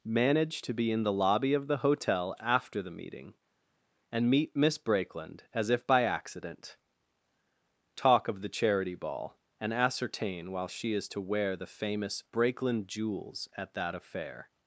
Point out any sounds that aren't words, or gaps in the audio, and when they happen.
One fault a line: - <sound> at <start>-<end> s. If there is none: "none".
none